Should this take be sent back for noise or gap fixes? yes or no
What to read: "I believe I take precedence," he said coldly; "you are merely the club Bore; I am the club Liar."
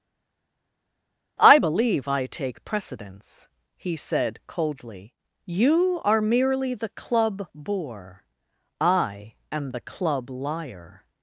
no